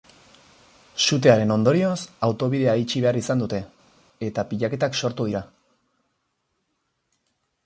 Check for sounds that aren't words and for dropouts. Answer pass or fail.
pass